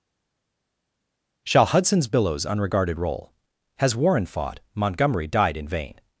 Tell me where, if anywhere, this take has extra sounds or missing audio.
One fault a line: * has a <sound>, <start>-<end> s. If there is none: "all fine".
all fine